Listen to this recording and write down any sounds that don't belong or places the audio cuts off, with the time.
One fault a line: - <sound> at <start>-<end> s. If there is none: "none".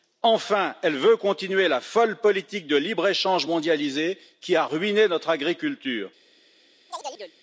- chirp at 6.9-7.3 s